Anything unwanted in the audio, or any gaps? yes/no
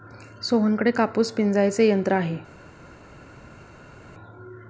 no